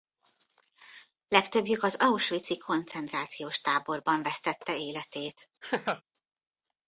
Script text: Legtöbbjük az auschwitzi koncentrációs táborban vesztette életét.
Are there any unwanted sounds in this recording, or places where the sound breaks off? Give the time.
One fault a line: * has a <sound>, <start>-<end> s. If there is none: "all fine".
* has a laugh, 5.6-6.0 s